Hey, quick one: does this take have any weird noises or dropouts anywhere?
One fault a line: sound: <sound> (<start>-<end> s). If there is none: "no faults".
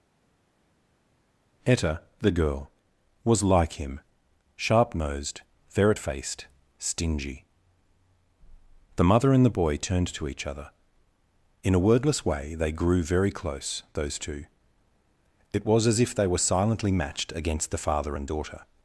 no faults